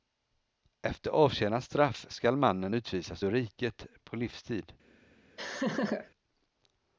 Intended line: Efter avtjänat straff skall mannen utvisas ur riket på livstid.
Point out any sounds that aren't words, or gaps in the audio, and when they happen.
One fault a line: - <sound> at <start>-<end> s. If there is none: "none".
- laugh at 5.4-6.1 s